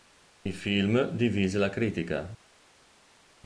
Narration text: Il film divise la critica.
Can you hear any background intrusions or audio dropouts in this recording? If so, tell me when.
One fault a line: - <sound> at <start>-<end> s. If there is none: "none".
none